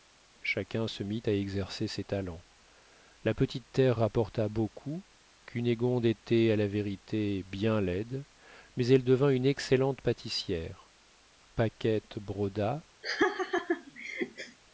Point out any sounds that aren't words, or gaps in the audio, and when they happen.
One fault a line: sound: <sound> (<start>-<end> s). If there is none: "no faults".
sound: laugh (13.0-14.6 s)